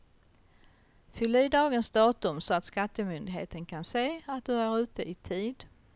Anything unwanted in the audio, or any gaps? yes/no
no